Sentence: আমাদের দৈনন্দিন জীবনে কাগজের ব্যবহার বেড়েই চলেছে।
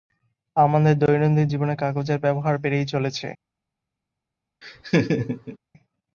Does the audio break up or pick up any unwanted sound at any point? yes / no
yes